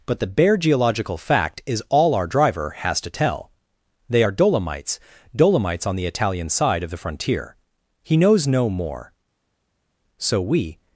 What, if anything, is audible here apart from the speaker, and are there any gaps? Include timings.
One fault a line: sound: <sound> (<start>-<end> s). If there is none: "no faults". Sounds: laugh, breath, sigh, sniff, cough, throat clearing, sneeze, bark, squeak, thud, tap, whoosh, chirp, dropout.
no faults